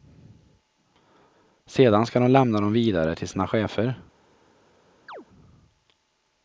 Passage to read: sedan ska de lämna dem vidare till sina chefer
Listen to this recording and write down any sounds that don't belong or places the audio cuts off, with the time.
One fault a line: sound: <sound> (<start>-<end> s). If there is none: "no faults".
sound: chirp (5.1-5.3 s)